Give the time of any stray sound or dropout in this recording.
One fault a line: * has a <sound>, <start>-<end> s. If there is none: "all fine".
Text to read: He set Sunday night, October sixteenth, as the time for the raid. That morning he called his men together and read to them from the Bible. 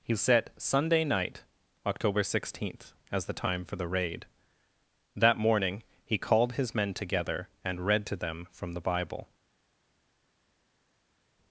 all fine